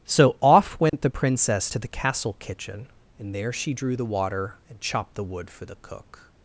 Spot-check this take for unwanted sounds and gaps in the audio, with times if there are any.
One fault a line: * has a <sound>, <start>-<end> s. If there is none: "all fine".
* has a dropout, 0.9-0.9 s